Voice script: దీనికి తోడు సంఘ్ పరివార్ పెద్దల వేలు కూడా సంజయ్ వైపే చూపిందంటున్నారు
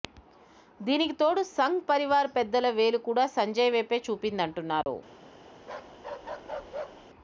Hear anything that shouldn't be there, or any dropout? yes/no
yes